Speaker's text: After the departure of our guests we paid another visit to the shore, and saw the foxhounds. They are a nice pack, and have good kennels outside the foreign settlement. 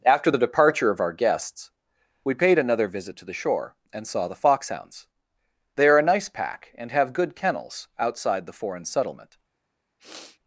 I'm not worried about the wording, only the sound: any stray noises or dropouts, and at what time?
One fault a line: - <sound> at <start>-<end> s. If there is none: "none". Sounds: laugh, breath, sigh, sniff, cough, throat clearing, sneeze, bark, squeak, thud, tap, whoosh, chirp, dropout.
- sniff at 10.0-10.4 s